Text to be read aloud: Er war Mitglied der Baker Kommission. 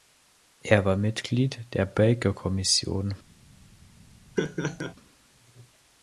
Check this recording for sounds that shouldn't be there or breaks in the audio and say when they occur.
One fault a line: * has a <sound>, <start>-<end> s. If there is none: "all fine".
* has a laugh, 4.4-4.9 s